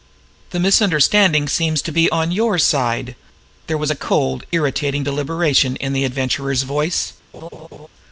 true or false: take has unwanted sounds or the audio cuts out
true